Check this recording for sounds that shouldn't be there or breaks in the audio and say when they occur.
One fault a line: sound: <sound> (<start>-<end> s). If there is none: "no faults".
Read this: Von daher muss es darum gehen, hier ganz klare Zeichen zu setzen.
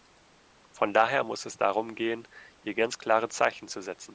no faults